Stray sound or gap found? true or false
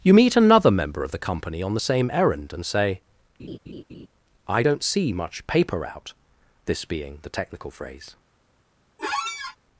true